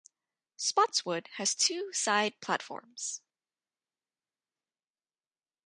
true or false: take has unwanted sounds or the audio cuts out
false